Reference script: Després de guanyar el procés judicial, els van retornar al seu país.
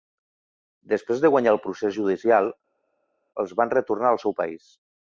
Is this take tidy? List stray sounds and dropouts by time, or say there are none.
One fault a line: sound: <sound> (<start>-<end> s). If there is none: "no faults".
no faults